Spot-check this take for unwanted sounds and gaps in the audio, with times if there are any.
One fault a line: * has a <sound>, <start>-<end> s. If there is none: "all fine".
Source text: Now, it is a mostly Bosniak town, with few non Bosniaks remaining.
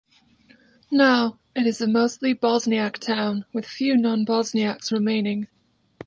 all fine